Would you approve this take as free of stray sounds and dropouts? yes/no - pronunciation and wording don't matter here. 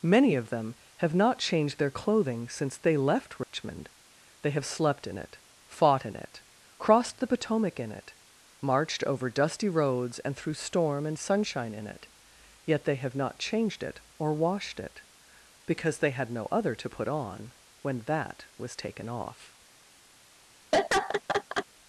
no